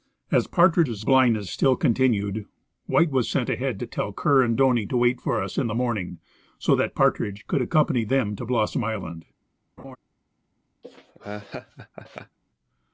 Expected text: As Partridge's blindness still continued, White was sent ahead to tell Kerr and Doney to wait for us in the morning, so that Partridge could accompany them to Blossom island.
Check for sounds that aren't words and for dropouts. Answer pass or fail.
fail